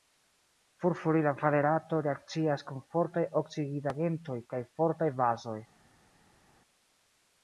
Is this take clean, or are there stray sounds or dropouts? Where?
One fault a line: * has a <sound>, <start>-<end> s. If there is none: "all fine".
all fine